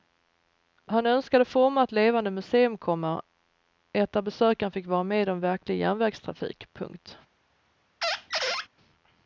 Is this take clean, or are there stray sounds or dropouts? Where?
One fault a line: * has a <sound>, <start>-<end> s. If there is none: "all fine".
* has a squeak, 8.0-8.7 s